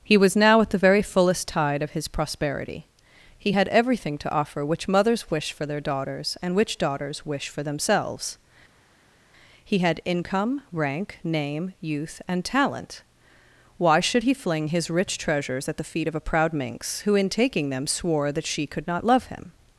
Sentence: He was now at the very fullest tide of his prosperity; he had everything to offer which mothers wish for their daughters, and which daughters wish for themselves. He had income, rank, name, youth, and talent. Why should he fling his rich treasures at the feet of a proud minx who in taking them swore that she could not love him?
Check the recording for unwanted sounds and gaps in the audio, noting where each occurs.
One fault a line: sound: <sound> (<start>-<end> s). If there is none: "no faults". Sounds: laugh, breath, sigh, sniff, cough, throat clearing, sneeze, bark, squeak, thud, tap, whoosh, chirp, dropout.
no faults